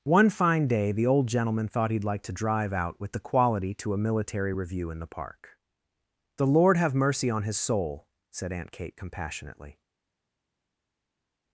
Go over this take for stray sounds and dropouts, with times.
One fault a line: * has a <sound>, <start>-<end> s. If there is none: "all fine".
all fine